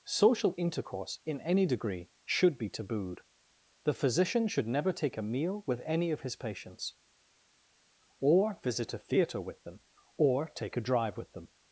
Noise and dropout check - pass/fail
pass